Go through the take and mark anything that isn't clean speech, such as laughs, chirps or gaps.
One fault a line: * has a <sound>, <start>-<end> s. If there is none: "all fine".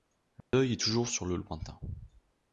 * has a dropout, 0.4-0.5 s